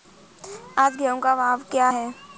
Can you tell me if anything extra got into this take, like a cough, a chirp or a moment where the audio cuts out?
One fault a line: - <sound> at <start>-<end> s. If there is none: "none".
none